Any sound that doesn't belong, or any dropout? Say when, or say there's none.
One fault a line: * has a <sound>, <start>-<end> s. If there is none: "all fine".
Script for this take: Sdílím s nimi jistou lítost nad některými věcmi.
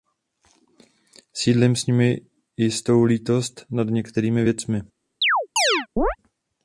* has a chirp, 5.2-6.2 s